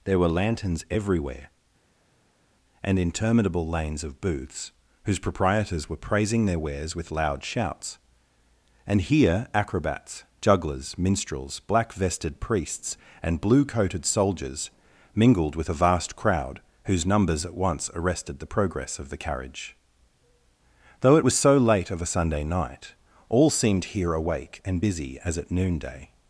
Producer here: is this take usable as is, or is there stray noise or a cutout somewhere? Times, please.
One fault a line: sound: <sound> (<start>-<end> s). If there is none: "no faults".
no faults